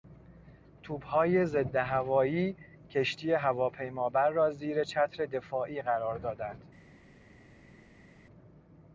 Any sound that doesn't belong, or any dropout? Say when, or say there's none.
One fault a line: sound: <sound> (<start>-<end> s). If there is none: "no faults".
no faults